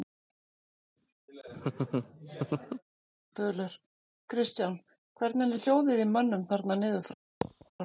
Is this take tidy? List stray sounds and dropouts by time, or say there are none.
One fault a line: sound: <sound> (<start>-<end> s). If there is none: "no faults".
sound: laugh (1.3-2.8 s)
sound: thud (7.4-7.7 s)